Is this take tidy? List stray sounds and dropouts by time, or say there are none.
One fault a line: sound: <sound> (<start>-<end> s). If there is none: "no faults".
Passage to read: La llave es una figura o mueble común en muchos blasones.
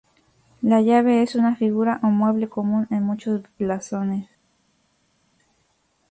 no faults